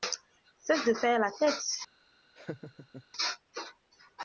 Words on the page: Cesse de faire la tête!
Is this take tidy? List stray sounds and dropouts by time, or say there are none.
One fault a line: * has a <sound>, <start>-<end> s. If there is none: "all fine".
* has a laugh, 2.4-3.0 s